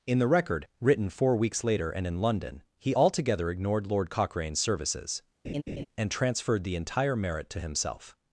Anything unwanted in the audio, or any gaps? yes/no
yes